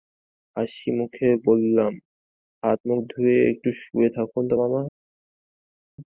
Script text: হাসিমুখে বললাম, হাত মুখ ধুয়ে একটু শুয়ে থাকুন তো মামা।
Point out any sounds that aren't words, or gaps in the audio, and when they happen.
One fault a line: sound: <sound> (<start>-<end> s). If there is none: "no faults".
no faults